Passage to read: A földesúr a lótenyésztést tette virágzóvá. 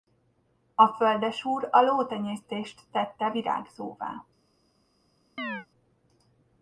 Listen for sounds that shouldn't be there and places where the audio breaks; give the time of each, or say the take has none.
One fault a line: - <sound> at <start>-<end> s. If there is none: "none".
- chirp at 5.4-5.7 s